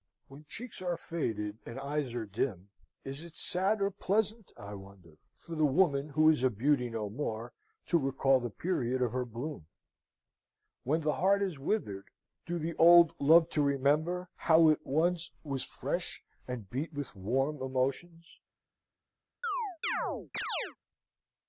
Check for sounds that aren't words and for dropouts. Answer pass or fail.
fail